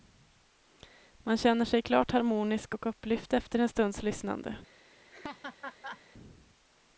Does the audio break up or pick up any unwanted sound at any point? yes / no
yes